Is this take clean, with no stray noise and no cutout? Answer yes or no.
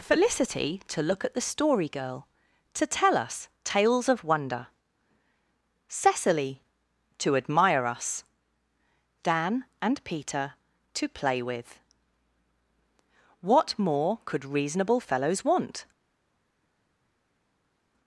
yes